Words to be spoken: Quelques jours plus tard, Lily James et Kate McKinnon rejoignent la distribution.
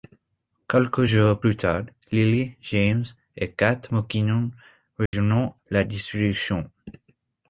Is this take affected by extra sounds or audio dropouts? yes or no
yes